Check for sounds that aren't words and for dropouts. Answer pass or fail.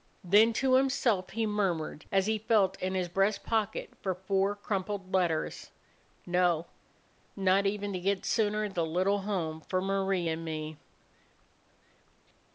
pass